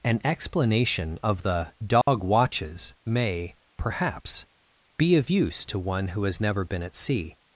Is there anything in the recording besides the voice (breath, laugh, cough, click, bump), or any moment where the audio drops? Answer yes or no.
yes